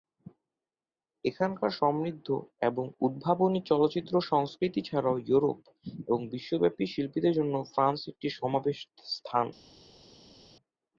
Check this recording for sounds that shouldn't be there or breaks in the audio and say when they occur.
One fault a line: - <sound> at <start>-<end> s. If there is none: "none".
none